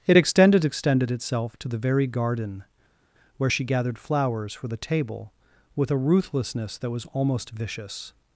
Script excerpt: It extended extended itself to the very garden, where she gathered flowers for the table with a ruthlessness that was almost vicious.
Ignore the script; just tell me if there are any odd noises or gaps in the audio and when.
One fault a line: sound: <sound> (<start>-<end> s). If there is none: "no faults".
no faults